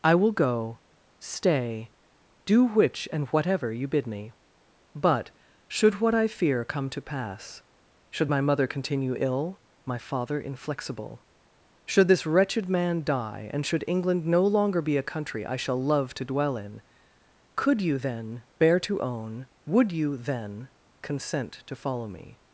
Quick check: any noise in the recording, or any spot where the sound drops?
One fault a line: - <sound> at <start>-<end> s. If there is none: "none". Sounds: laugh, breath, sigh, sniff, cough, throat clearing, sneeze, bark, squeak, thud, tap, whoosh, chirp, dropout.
none